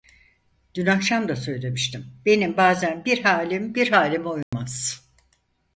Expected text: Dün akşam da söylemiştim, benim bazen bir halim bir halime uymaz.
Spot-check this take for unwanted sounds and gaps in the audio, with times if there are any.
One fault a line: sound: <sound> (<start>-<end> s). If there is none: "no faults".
sound: dropout (4.4-4.5 s)